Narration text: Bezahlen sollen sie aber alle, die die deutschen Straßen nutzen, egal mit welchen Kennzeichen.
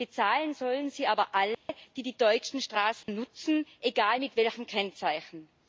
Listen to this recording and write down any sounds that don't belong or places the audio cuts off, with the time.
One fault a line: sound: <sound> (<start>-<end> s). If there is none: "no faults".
sound: dropout (1.5-1.7 s)
sound: dropout (3.0-3.1 s)